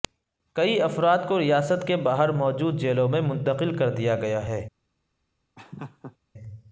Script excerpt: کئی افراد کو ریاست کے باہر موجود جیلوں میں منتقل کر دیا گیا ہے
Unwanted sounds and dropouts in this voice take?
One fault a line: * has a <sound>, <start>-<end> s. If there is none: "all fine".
* has a laugh, 5.6-6.2 s